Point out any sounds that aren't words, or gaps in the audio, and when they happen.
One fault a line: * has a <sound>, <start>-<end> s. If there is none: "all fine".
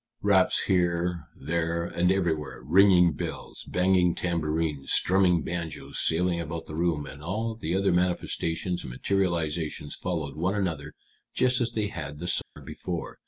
* has a dropout, 12.4-12.6 s